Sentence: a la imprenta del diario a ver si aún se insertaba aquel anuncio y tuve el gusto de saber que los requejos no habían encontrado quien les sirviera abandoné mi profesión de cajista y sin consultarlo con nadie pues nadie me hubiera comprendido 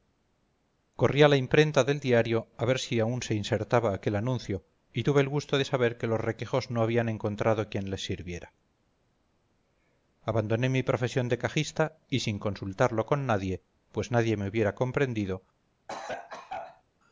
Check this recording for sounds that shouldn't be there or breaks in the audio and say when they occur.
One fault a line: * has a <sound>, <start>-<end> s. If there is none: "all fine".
* has a cough, 15.9-16.8 s